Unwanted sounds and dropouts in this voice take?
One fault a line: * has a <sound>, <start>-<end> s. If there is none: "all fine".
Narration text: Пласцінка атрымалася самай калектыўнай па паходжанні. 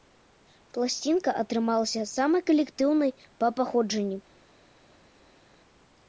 all fine